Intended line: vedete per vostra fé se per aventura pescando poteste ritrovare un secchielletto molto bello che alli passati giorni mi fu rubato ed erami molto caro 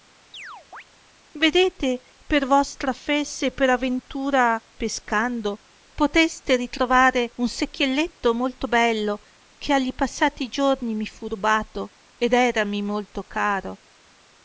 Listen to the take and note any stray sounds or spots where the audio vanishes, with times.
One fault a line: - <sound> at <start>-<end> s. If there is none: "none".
- chirp at 0.3-0.8 s